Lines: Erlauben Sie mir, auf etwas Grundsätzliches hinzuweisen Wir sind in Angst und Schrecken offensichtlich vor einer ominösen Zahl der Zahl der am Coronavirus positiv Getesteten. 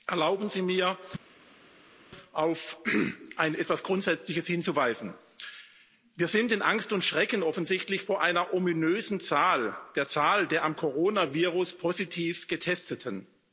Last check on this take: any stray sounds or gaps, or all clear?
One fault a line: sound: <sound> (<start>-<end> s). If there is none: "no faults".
no faults